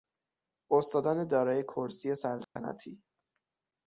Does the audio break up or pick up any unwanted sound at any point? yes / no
yes